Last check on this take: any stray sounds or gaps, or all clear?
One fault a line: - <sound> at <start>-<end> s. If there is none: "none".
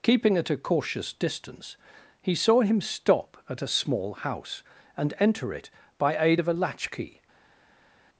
none